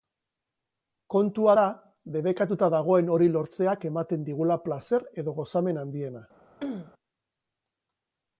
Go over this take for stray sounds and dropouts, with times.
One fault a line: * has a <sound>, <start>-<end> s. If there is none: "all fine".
* has a throat clearing, 6.6-6.9 s